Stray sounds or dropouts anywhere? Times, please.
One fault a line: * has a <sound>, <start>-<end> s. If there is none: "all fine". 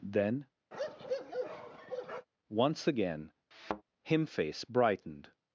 * has a bark, 0.7-2.3 s
* has a thud, 3.5-3.8 s